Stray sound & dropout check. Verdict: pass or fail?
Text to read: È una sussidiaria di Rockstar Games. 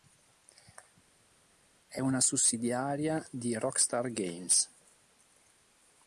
pass